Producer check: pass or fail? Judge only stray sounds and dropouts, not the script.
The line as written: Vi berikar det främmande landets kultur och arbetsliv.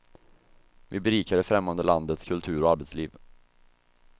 pass